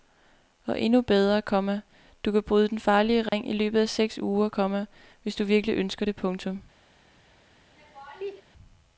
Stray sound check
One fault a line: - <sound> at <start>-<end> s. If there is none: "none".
- dropout at 3.3-3.3 s
- laugh at 7.8-8.4 s